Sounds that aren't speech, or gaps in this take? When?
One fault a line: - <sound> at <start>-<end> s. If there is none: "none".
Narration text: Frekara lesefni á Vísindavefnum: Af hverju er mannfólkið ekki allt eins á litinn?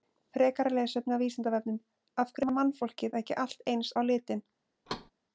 - thud at 4.9-5.1 s